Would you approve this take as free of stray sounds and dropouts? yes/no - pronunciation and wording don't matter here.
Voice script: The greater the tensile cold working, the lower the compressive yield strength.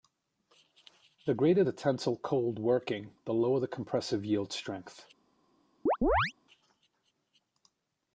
no